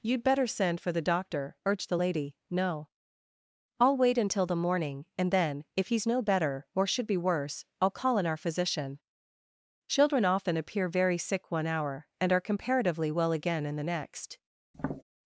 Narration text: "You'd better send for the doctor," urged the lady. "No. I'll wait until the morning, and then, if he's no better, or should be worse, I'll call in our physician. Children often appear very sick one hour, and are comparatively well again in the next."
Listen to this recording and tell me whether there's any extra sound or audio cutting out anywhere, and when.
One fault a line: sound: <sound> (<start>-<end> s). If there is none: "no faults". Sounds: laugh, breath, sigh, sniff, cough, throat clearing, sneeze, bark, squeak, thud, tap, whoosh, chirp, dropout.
sound: tap (14.7-15.0 s)